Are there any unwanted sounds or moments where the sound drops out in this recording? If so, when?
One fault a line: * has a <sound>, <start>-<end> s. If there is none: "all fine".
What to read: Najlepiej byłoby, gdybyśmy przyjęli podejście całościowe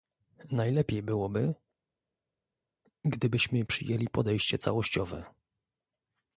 all fine